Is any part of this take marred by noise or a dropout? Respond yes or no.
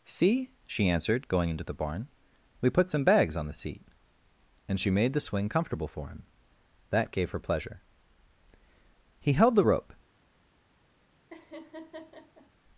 yes